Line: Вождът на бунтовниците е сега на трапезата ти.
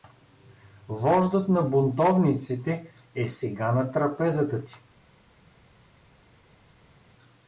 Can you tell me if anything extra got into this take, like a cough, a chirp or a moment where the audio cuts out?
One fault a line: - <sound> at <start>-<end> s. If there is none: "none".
none